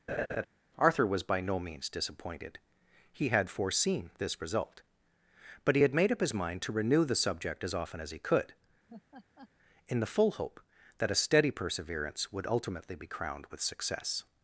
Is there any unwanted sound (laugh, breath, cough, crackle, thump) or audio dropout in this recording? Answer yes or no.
yes